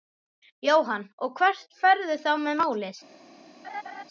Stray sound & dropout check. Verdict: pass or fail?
fail